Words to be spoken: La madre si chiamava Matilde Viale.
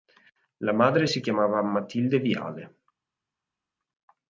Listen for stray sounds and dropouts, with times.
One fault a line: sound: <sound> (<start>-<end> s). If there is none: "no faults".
no faults